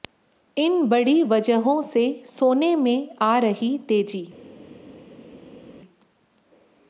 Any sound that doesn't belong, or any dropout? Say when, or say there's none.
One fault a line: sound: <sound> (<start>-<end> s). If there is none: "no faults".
no faults